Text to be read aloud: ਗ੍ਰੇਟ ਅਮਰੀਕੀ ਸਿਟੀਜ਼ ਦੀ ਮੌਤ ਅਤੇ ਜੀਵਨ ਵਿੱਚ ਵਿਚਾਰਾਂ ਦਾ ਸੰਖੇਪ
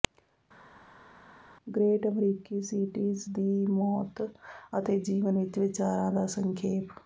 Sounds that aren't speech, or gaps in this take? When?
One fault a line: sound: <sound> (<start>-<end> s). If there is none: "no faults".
no faults